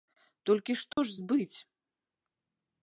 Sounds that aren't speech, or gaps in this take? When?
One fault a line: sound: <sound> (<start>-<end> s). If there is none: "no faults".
sound: dropout (0.9-1.0 s)